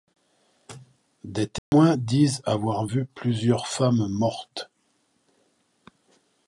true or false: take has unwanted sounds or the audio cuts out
true